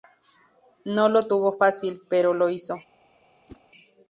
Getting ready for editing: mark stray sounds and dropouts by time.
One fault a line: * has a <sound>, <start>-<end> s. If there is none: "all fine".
* has a whoosh, 3.5-3.6 s